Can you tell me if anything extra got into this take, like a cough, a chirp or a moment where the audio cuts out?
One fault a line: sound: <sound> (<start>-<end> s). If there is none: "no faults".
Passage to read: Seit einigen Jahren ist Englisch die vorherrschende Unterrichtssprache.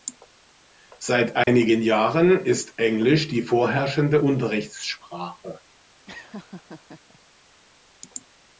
sound: dropout (1.4-1.5 s)
sound: laugh (6.1-7.2 s)